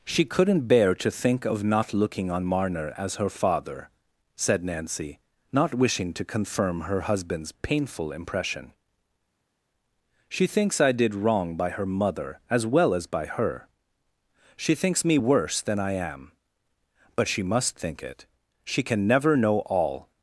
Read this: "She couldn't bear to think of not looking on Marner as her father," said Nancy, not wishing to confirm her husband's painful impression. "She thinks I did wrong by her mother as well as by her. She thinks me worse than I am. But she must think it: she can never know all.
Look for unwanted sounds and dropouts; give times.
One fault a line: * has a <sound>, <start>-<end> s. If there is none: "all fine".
all fine